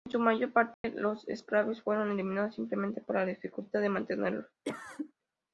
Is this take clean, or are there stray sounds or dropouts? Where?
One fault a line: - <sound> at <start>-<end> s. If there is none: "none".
- dropout at 0.7-0.8 s
- cough at 4.6-5.1 s